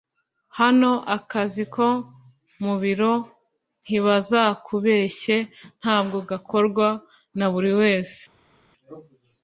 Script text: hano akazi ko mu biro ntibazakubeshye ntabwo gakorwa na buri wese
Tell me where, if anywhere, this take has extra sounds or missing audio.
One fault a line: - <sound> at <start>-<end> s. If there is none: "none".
none